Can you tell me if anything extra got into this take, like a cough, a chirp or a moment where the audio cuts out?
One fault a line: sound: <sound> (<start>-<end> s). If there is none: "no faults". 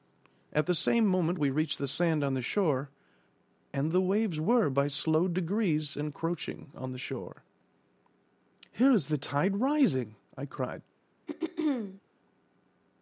sound: throat clearing (11.3-12.0 s)